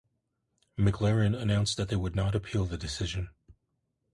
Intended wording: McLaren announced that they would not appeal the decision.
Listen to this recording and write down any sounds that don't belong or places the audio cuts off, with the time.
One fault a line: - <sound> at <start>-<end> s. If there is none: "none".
none